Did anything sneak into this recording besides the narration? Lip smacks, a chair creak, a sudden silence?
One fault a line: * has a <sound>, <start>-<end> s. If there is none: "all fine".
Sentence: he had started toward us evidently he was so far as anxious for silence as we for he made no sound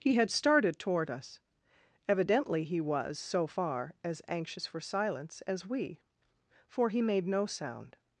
all fine